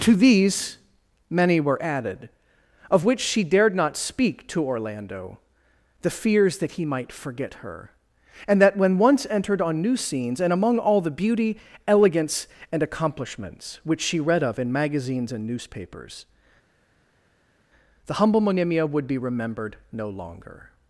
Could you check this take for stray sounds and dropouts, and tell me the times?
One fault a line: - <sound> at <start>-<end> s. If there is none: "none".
none